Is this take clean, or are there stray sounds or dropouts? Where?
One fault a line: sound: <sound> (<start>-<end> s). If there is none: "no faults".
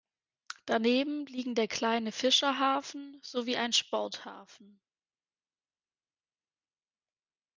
no faults